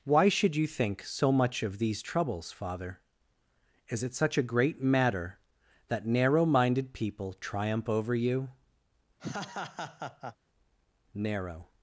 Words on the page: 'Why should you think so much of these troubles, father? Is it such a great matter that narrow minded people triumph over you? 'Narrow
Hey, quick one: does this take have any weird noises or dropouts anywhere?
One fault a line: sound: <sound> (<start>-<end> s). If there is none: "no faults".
sound: laugh (9.2-10.4 s)